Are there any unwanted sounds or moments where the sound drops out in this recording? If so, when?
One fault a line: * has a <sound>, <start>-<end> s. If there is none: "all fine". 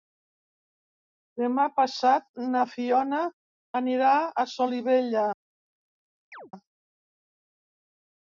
* has a chirp, 6.3-6.5 s